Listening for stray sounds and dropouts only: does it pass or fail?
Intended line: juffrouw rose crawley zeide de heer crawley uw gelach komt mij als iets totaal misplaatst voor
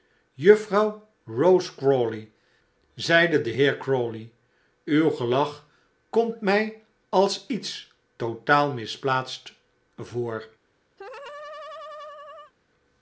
fail